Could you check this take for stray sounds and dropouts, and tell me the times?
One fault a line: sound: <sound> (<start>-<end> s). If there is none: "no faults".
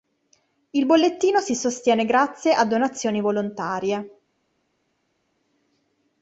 no faults